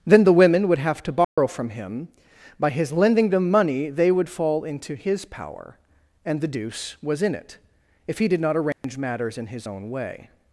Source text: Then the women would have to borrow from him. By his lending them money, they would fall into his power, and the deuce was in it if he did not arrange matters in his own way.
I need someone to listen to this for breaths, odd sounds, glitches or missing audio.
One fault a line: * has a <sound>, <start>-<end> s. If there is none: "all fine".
* has a dropout, 1.2-1.4 s
* has a dropout, 8.7-8.8 s